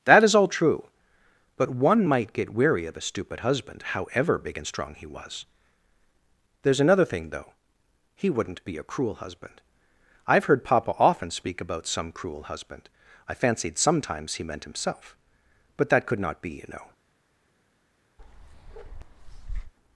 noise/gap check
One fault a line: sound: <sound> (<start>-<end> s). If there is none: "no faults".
sound: bark (18.2-19.7 s)